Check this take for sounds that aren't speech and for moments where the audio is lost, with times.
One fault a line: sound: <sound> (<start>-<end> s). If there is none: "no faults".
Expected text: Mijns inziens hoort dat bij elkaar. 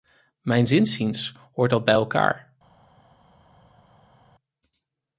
no faults